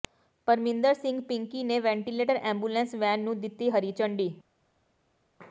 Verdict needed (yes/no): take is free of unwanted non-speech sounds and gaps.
yes